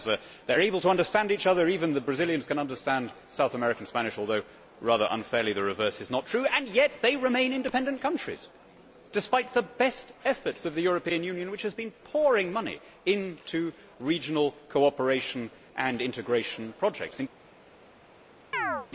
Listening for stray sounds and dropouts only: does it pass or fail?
fail